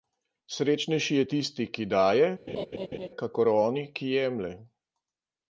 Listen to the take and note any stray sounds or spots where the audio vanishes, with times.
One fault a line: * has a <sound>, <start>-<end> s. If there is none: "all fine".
* has a laugh, 2.5-3.1 s